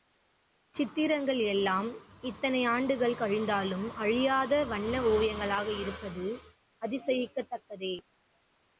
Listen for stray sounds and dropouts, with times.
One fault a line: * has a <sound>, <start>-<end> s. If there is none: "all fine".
all fine